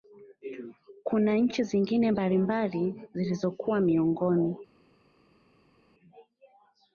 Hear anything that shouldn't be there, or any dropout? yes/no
no